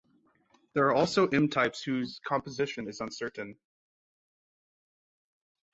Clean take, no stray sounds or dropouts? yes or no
yes